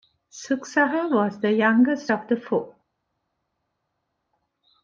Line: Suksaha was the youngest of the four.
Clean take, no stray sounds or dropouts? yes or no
yes